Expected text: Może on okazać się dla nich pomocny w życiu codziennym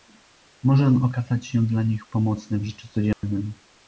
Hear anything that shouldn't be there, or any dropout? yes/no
yes